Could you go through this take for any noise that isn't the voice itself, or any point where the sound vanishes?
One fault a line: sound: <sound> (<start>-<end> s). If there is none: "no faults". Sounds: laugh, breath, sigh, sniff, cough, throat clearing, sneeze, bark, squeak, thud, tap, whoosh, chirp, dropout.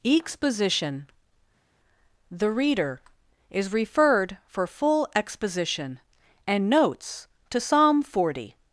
no faults